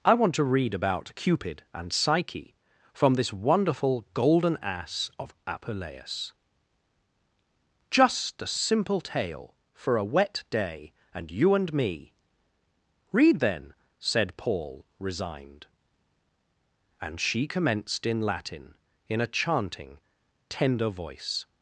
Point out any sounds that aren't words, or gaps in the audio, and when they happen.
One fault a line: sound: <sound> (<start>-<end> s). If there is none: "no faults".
no faults